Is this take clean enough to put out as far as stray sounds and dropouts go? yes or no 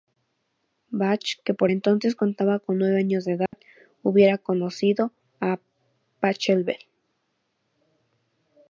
no